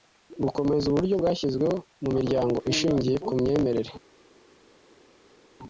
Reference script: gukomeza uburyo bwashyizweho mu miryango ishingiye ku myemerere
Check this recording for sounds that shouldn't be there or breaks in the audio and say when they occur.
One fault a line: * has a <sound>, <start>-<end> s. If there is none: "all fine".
all fine